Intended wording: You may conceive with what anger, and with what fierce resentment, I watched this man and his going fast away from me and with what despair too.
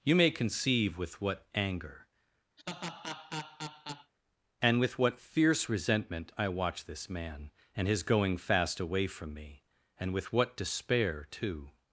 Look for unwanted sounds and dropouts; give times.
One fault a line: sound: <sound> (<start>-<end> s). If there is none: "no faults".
sound: laugh (2.6-4.1 s)